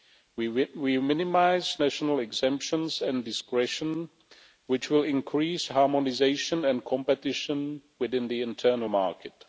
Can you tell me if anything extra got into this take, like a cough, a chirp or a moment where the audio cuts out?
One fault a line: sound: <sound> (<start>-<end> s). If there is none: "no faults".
no faults